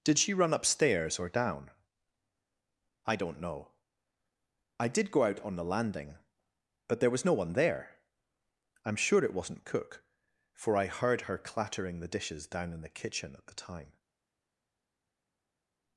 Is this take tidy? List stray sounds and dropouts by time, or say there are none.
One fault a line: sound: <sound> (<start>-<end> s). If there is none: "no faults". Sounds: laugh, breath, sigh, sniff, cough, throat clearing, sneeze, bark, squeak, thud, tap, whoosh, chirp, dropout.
no faults